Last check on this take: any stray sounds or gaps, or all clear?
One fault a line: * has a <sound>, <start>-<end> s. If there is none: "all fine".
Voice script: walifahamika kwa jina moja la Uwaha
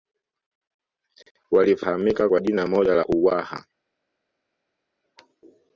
all fine